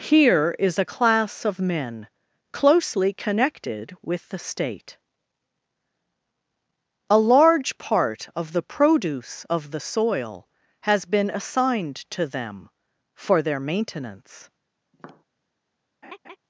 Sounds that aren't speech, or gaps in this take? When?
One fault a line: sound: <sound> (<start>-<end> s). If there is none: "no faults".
sound: tap (14.9-15.2 s)
sound: laugh (16.0-16.4 s)